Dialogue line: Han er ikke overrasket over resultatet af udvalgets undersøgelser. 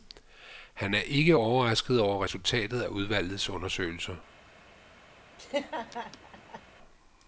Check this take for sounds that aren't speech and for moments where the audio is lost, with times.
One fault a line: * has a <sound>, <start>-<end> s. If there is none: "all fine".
* has a laugh, 5.4-6.6 s